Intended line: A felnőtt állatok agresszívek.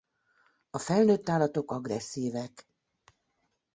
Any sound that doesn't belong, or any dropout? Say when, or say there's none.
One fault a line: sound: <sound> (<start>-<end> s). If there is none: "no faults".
no faults